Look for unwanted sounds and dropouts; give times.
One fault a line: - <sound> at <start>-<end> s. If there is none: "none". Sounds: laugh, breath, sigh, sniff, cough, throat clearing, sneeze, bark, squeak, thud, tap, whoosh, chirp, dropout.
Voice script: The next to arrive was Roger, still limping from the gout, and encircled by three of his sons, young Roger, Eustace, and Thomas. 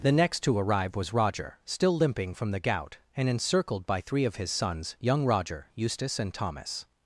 none